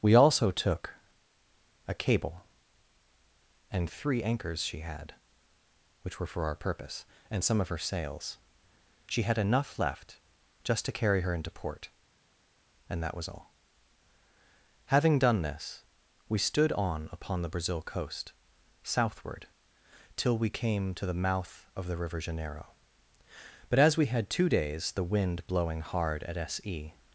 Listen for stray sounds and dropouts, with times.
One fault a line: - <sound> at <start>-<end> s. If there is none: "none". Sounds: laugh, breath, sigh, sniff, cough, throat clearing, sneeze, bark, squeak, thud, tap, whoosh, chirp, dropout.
none